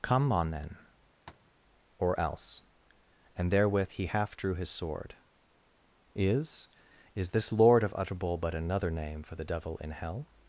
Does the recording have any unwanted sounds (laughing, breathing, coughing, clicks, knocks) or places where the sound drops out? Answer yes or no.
yes